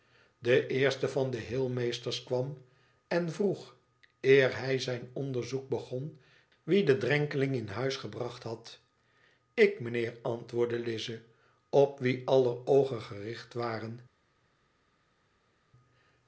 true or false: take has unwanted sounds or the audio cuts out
false